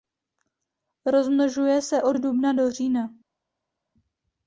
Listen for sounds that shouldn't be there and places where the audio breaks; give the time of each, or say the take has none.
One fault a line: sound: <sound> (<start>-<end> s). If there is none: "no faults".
no faults